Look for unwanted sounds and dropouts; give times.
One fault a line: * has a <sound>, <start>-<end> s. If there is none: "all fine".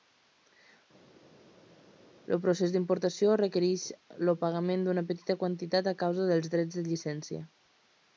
all fine